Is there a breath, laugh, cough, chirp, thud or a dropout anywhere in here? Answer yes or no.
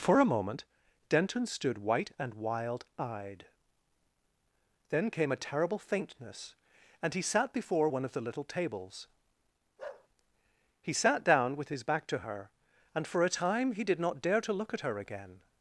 yes